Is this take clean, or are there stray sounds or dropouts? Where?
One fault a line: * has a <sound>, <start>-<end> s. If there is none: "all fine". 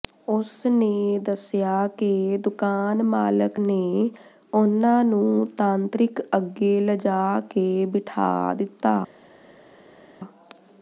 all fine